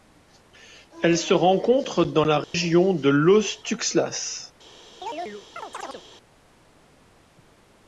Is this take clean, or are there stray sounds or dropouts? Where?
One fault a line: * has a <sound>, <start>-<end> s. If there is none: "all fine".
* has a dropout, 2.4-2.5 s
* has a chirp, 5.0-6.0 s